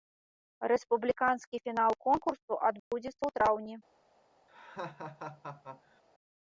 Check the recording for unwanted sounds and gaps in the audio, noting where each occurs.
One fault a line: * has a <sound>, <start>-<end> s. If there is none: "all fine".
* has a dropout, 2.8-2.9 s
* has a laugh, 4.5-6.0 s